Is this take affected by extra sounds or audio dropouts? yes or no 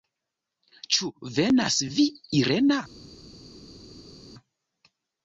no